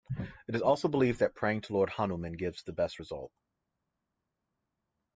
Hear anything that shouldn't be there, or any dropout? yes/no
no